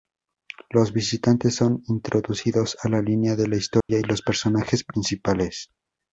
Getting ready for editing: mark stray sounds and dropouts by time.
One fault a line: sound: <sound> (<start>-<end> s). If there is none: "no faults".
sound: dropout (3.8-3.9 s)